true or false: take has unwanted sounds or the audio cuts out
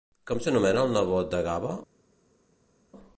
false